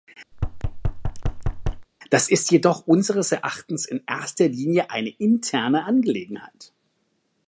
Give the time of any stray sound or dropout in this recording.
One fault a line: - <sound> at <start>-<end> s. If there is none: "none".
- thud at 0.3-1.9 s